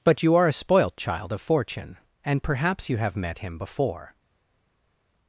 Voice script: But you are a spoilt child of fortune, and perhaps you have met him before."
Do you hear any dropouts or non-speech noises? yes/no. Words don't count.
no